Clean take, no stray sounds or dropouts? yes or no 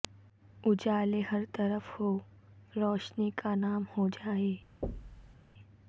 no